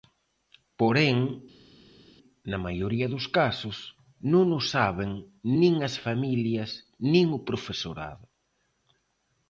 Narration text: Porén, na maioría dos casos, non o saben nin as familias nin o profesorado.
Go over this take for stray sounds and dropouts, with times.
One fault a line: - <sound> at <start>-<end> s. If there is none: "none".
none